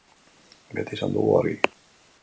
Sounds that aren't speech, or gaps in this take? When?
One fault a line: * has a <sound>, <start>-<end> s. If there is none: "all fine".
all fine